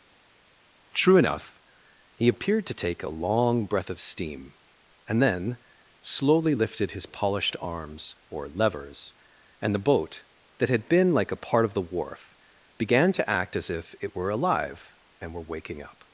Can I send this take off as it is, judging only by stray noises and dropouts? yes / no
yes